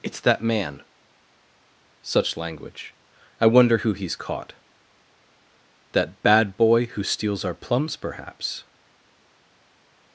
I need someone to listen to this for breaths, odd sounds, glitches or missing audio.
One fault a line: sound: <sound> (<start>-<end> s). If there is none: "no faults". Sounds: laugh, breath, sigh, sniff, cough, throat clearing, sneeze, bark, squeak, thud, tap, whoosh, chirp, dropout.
no faults